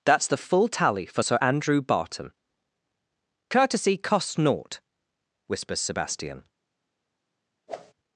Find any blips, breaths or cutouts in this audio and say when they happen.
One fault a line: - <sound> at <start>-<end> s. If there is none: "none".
- whoosh at 7.7-7.9 s